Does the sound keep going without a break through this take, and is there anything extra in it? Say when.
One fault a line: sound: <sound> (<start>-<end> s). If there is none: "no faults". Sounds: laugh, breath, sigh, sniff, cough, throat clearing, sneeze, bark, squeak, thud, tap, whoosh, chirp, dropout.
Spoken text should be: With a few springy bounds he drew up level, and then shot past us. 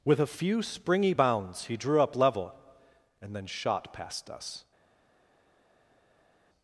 no faults